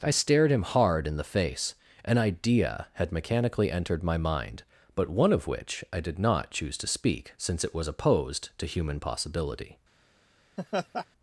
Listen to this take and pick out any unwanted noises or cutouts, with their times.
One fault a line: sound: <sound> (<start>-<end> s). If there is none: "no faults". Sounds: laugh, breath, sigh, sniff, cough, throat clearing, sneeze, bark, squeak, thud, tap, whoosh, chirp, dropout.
sound: laugh (10.6-11.1 s)